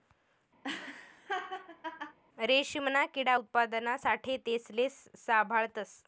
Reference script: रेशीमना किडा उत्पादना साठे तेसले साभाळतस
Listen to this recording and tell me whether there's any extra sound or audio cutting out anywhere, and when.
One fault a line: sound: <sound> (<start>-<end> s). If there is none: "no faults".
sound: laugh (0.6-2.2 s)